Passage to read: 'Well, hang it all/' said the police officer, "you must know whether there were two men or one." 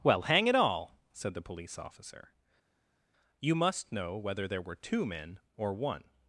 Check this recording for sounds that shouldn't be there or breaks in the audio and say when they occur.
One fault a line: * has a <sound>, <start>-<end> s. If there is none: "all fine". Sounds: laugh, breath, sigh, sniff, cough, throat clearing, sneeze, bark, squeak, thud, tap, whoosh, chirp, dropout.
all fine